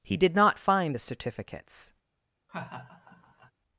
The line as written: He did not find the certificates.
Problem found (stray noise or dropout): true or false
true